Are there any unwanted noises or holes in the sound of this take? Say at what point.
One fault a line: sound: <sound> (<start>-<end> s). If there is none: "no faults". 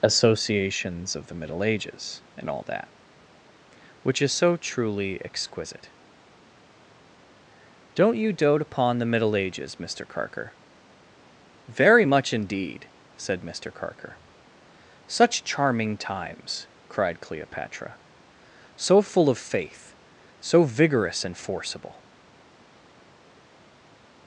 no faults